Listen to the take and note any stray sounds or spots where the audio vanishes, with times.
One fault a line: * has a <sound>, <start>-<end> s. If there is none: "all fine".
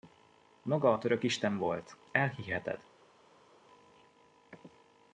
all fine